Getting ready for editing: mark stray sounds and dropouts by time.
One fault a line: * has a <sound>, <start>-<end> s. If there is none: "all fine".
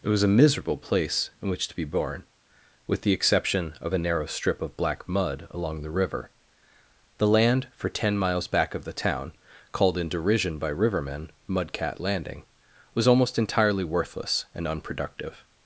all fine